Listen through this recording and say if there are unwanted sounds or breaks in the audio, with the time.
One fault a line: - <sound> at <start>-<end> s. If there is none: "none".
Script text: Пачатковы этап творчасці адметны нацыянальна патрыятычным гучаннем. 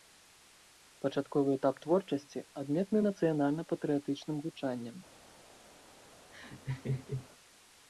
- laugh at 6.3-7.3 s